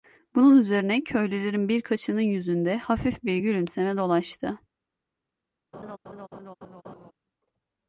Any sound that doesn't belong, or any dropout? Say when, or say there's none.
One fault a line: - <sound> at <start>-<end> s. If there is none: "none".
- laugh at 5.7-7.1 s